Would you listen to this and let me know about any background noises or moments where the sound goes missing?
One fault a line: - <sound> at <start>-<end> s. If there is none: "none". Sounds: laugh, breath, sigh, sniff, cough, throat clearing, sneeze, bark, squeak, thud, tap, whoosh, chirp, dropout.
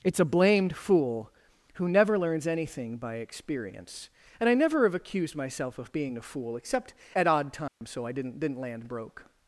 - dropout at 7.7-7.8 s